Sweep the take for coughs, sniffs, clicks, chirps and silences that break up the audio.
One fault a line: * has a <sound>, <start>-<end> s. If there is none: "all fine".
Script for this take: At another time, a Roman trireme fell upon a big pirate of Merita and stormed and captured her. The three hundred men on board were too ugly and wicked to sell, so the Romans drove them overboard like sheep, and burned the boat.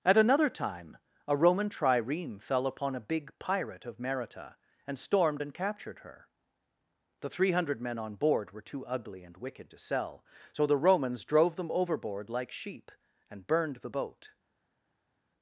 all fine